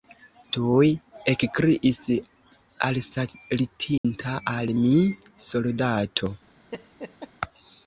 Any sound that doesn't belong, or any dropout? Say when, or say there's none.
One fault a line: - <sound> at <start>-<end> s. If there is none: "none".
- dropout at 4.0-4.0 s
- laugh at 6.7-7.3 s